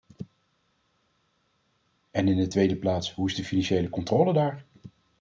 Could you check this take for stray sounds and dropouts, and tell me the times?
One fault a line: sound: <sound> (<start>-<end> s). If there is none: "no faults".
no faults